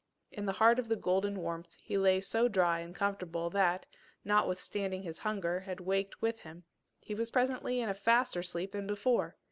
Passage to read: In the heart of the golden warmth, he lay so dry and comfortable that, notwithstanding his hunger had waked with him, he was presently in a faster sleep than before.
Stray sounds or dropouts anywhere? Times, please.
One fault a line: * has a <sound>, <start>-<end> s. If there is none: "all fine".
all fine